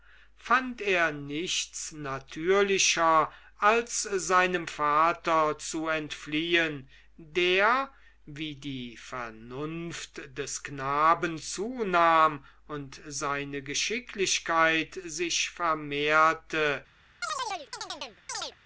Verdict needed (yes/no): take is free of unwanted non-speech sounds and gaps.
no